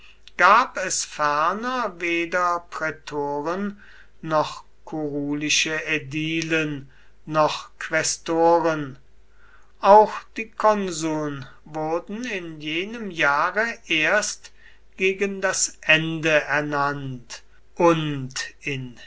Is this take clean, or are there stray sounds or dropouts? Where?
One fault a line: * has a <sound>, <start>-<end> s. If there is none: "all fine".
all fine